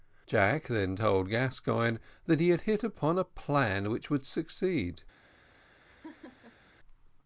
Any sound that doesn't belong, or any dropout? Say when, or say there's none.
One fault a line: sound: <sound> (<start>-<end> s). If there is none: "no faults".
sound: laugh (5.9-6.7 s)